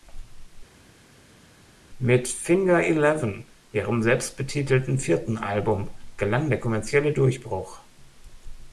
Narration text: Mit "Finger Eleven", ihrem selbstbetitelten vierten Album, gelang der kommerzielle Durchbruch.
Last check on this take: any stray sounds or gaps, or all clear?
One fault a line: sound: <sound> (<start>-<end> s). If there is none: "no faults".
no faults